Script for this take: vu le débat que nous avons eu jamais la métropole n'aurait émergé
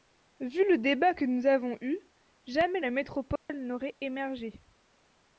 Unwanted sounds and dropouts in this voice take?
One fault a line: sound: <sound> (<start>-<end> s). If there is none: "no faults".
sound: dropout (3.4-3.5 s)